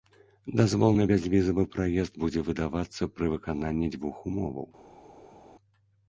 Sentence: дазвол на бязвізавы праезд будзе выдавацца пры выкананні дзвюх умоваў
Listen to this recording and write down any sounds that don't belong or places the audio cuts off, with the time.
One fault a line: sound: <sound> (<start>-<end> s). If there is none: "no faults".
no faults